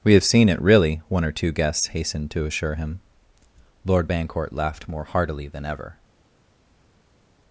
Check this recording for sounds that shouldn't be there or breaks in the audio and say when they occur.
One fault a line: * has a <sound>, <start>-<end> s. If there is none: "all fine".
all fine